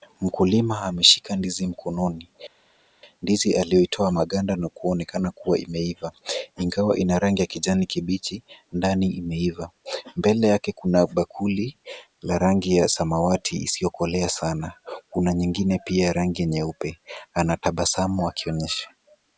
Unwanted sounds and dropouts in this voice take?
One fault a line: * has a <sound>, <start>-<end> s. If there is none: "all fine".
all fine